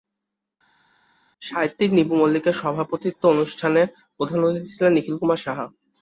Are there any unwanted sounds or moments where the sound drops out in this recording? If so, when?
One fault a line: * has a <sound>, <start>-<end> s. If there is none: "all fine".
all fine